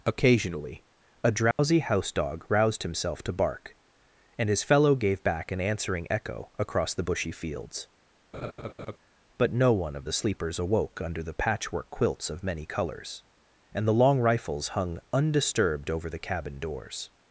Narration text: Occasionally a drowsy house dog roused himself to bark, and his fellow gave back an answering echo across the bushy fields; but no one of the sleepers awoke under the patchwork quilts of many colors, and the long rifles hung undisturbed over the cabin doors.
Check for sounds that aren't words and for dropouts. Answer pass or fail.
fail